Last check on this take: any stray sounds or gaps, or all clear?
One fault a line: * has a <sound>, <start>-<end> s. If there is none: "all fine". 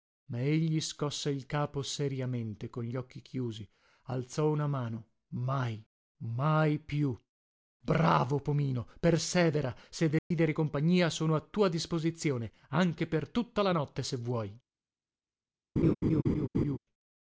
* has a dropout, 10.2-10.3 s
* has a laugh, 15.8-16.8 s